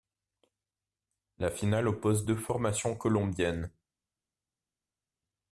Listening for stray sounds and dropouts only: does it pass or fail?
pass